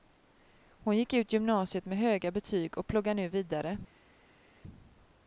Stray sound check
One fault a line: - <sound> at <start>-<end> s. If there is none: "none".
none